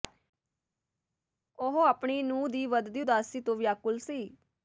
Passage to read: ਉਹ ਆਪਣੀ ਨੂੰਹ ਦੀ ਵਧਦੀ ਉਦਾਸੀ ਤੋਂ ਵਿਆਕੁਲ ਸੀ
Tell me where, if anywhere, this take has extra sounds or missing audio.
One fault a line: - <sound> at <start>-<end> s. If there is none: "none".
none